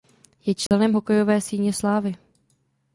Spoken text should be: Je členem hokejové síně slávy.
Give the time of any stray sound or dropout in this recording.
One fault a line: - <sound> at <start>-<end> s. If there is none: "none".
- dropout at 0.7-0.7 s